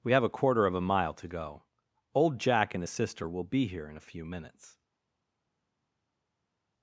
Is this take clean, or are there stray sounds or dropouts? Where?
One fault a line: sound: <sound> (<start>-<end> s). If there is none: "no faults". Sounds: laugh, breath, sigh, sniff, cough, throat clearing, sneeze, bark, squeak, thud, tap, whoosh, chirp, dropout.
no faults